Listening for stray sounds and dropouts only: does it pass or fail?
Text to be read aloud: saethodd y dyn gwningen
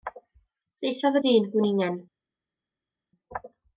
pass